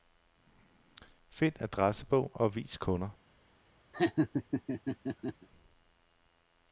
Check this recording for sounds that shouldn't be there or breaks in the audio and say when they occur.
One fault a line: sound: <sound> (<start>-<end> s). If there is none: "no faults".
sound: laugh (3.9-5.5 s)